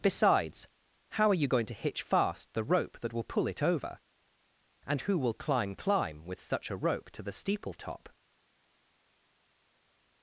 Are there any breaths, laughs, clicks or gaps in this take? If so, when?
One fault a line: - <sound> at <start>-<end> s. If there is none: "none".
none